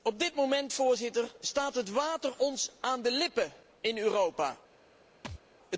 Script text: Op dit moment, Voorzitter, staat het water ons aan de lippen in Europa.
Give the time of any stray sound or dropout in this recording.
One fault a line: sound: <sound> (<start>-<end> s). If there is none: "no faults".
sound: thud (5.2-5.4 s)